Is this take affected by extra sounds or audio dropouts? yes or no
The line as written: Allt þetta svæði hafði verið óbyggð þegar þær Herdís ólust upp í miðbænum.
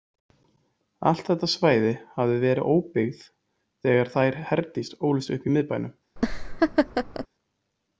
yes